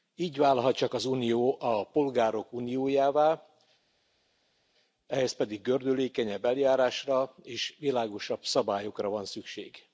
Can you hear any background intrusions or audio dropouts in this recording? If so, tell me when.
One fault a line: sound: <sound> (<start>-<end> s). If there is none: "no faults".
no faults